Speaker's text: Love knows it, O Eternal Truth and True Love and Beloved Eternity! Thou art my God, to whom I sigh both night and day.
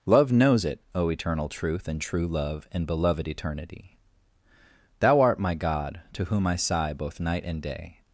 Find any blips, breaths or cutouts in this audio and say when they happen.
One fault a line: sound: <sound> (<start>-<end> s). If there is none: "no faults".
no faults